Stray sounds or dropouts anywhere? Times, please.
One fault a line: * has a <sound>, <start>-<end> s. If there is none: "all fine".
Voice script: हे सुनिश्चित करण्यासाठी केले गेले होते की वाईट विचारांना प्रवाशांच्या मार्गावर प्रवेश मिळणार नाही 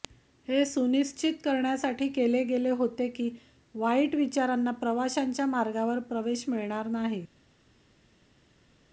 all fine